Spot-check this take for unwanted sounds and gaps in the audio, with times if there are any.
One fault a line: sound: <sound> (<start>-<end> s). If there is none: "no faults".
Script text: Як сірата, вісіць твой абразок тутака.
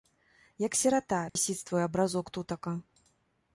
sound: dropout (1.3-1.4 s)